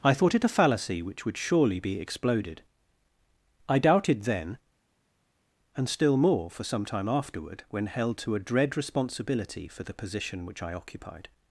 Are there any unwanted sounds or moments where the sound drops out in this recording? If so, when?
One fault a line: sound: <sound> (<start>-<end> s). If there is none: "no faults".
no faults